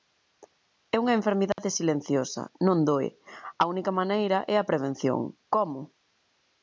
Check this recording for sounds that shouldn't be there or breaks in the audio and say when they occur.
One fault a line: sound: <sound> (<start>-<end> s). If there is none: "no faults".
sound: dropout (1.5-1.6 s)